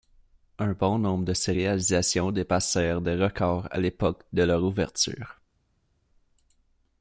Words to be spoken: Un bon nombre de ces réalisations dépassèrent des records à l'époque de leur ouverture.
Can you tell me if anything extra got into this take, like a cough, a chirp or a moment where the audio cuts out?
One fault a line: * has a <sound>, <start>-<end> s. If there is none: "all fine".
all fine